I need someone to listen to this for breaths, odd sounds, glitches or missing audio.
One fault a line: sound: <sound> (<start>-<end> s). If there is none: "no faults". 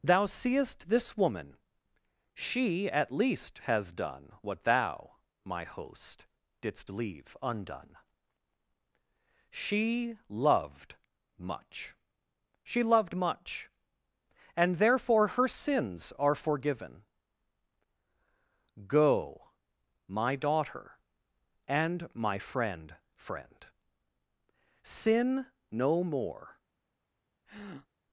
sound: breath (27.5-27.9 s)